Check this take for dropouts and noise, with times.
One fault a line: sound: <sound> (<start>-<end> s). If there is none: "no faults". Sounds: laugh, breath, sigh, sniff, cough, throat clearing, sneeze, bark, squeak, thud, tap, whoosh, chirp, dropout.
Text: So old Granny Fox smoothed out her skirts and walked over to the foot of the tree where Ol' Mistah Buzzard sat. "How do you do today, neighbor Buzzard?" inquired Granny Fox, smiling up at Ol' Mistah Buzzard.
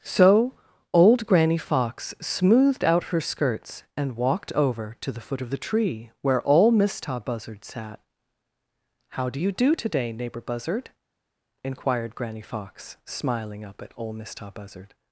no faults